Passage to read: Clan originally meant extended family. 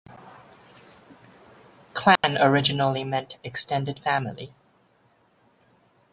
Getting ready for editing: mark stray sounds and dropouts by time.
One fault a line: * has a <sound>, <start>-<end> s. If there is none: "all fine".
* has a dropout, 2.2-2.2 s